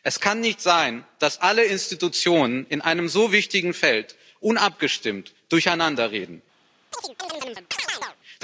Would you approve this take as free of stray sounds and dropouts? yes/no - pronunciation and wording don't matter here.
no